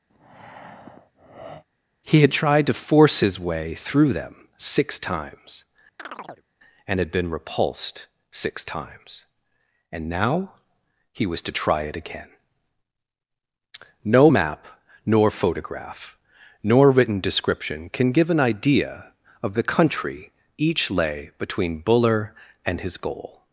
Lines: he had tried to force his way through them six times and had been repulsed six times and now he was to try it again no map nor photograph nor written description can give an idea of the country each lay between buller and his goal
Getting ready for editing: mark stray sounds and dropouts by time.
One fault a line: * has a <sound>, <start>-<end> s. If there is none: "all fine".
* has a breath, 0.1-1.6 s
* has a chirp, 6.0-6.5 s